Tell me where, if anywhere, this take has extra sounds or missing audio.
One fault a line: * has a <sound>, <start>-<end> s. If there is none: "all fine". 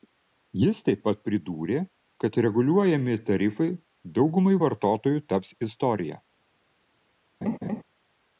* has a laugh, 7.4-7.8 s